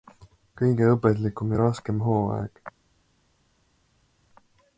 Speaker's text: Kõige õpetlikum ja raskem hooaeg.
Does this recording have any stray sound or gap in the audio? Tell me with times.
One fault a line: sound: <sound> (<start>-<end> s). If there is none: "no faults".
no faults